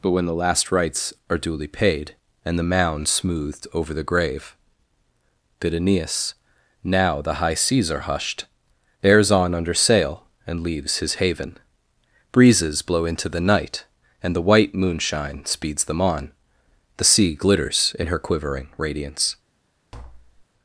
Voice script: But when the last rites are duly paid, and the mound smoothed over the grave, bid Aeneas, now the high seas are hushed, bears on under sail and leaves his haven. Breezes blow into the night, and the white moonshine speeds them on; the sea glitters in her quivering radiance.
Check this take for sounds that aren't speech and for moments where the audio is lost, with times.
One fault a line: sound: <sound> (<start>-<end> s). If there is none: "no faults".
sound: tap (19.9-20.5 s)